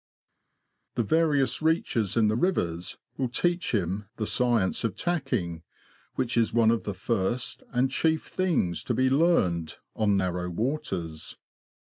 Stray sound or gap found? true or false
false